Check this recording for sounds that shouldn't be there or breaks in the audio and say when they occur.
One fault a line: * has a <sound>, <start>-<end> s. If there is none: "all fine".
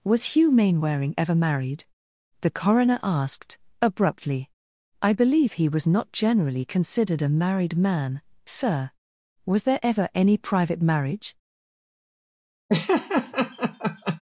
* has a laugh, 12.7-14.2 s